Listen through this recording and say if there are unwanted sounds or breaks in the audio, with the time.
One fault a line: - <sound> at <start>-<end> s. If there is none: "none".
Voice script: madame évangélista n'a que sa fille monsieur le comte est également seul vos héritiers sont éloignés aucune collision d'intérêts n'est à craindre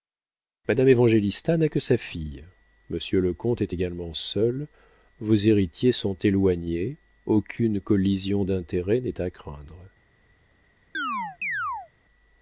- chirp at 10.9-11.9 s